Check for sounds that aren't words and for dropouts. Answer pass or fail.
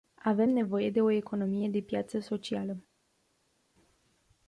pass